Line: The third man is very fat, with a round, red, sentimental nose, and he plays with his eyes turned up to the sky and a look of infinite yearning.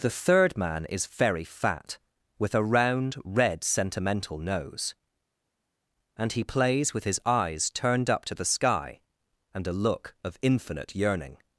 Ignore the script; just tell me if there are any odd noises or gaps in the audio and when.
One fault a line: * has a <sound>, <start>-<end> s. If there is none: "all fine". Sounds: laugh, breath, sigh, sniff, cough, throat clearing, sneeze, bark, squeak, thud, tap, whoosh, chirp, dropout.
all fine